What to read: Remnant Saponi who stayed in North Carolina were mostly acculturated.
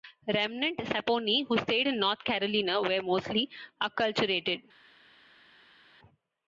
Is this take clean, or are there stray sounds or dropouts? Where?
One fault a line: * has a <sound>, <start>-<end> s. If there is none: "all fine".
all fine